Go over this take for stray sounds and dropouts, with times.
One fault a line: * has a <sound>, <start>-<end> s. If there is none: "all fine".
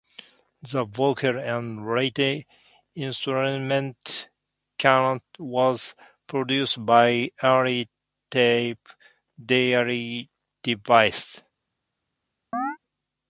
* has a chirp, 12.5-12.8 s